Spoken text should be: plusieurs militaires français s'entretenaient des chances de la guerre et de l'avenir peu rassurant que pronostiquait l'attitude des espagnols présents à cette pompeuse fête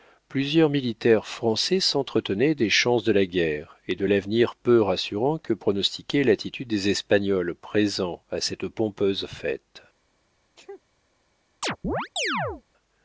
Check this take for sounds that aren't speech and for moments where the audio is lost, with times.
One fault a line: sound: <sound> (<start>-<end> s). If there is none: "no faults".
sound: sneeze (10.6-10.8 s)
sound: chirp (11.6-12.6 s)